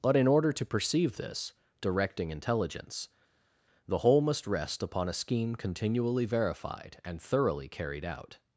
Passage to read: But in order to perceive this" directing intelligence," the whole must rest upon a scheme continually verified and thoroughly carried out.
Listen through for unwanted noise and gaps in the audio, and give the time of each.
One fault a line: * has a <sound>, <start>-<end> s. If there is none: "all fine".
all fine